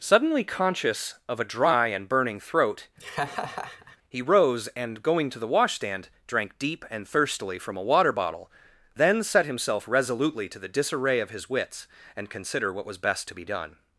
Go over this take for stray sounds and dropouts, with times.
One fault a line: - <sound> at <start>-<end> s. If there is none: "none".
- laugh at 3.0-4.0 s